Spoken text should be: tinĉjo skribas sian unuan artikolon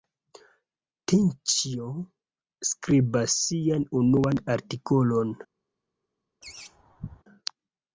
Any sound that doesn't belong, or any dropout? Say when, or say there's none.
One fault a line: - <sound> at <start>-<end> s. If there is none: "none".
- laugh at 6.4-7.2 s